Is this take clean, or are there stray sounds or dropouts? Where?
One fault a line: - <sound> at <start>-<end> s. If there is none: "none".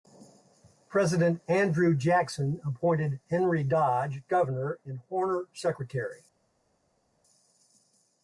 none